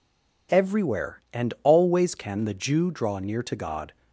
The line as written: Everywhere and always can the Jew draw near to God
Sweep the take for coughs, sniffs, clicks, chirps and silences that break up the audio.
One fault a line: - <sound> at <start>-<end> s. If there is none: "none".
none